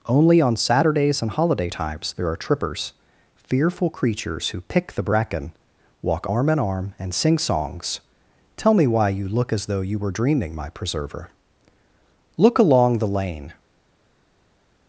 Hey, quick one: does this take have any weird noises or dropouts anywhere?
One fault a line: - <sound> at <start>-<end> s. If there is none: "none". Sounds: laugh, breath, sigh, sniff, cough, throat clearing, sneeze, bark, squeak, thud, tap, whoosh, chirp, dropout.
none